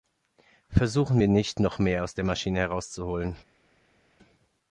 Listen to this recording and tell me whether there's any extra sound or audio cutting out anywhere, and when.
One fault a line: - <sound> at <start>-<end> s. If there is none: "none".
none